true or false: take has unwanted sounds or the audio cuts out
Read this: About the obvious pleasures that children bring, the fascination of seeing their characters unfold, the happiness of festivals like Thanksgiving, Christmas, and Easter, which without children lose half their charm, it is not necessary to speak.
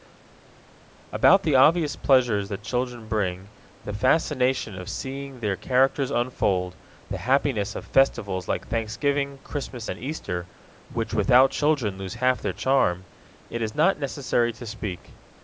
false